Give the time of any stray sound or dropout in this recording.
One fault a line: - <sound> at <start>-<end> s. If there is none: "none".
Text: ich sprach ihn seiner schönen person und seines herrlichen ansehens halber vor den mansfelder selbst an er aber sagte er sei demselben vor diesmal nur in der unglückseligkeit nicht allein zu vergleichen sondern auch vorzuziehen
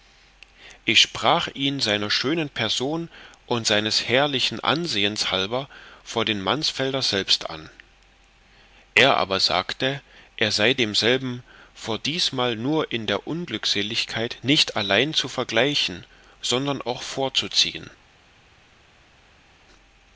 none